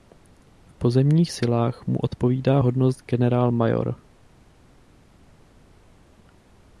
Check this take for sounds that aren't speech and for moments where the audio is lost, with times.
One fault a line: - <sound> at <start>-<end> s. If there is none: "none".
none